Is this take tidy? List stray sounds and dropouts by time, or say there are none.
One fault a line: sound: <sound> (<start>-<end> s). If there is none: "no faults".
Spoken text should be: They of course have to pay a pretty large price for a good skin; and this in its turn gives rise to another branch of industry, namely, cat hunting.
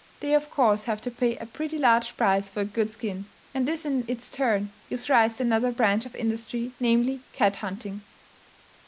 no faults